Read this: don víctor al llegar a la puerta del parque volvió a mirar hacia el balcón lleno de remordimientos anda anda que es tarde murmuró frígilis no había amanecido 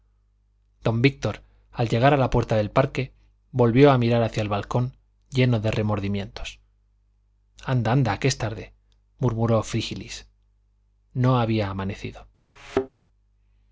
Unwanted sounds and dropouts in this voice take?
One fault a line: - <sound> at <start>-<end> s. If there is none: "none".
- thud at 12.6-12.9 s